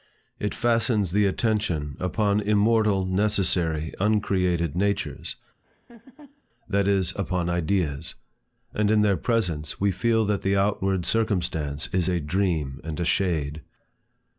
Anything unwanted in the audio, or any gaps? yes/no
yes